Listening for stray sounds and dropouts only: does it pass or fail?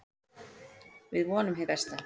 pass